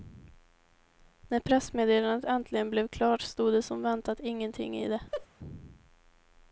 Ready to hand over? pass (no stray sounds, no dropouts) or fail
fail